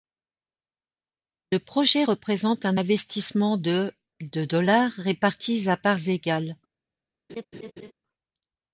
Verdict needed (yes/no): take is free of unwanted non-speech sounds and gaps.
no